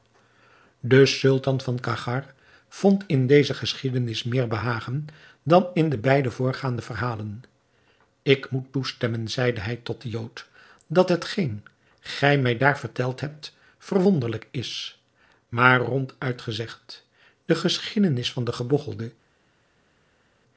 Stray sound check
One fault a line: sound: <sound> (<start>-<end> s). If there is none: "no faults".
no faults